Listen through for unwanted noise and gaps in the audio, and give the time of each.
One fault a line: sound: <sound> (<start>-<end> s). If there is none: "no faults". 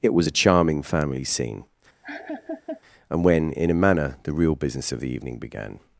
sound: laugh (2.0-2.8 s)